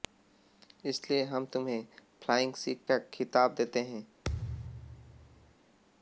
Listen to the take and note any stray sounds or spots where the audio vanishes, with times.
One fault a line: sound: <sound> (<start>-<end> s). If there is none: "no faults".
sound: thud (4.2-5.5 s)